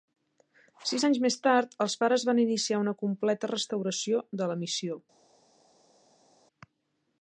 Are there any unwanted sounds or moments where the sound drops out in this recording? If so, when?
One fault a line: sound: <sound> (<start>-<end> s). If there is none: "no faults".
no faults